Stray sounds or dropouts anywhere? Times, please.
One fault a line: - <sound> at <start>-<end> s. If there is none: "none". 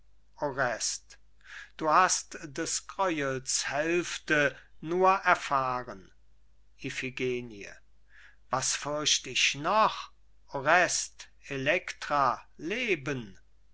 none